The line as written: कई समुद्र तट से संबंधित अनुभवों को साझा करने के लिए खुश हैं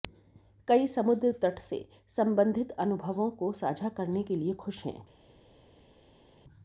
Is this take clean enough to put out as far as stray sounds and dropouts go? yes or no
yes